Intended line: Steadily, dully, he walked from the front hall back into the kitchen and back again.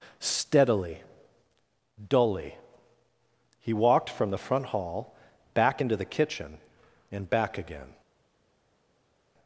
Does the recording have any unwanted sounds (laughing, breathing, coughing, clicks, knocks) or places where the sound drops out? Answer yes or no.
no